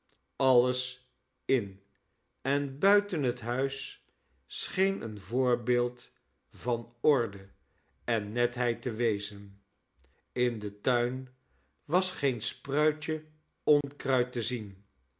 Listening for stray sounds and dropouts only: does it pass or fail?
fail